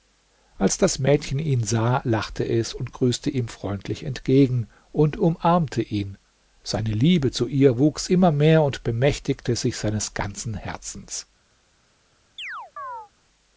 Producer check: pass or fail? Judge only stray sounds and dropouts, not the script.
fail